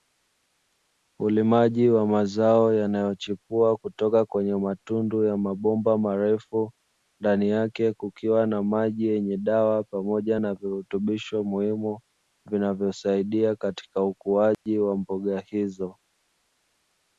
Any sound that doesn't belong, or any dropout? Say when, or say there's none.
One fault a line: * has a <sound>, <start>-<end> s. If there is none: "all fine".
* has a dropout, 14.5-14.7 s